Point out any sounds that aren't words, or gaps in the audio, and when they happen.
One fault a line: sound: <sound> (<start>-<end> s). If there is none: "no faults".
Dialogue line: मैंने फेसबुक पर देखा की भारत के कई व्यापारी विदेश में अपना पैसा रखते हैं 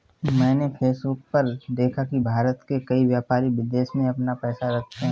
no faults